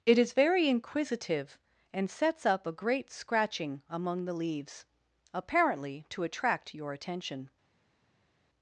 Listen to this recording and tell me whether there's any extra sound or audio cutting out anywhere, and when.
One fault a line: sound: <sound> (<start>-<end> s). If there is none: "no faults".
no faults